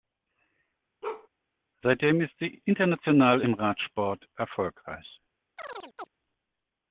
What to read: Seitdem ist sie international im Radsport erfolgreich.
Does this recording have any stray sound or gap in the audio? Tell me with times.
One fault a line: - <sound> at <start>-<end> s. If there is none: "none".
- bark at 1.0-1.3 s
- chirp at 5.6-6.1 s